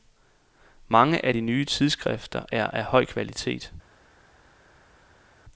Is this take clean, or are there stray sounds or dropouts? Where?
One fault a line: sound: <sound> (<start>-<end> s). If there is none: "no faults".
no faults